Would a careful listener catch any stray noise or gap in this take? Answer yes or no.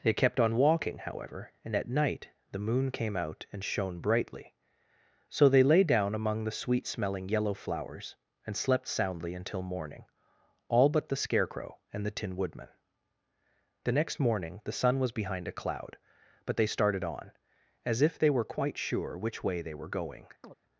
yes